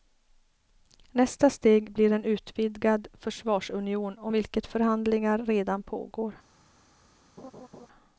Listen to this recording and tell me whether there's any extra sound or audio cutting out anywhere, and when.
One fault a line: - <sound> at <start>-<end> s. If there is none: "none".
- laugh at 7.4-7.9 s